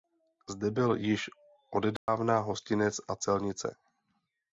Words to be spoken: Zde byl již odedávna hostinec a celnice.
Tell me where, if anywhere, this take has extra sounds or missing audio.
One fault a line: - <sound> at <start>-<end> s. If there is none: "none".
- dropout at 2.0-2.1 s